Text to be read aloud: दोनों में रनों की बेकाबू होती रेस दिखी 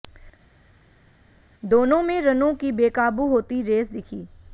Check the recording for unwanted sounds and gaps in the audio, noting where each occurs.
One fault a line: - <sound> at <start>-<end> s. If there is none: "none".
none